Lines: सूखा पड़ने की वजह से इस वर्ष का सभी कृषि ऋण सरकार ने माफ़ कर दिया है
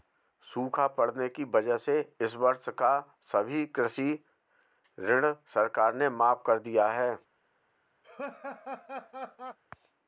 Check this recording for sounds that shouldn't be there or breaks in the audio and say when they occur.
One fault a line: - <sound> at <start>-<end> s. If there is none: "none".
- laugh at 8.0-9.6 s